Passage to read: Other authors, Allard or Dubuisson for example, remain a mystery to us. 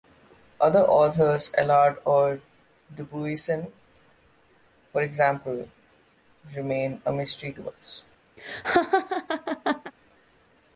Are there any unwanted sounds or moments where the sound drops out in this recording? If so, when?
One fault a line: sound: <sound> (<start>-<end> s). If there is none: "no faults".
sound: laugh (8.4-9.9 s)